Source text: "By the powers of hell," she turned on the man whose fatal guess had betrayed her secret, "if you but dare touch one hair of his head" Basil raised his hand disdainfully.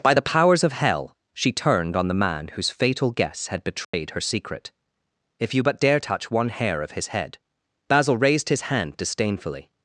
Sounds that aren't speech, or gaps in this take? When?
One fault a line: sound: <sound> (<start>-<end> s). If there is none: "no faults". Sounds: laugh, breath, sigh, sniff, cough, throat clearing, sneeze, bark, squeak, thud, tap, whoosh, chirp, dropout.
sound: dropout (3.8-3.9 s)